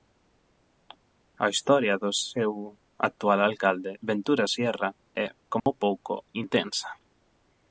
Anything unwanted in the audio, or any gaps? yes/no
yes